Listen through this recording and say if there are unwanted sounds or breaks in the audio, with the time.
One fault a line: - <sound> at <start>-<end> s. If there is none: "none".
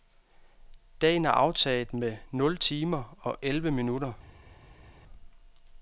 none